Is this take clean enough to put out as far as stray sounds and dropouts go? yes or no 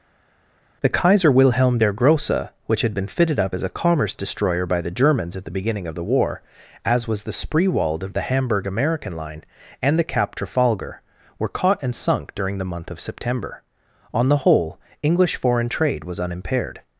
yes